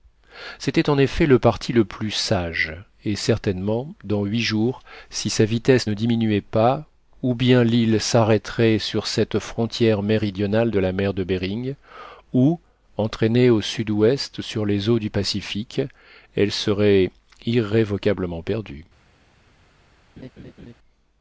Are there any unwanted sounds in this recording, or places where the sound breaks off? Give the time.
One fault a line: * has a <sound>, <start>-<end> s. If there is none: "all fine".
* has a laugh, 20.2-20.7 s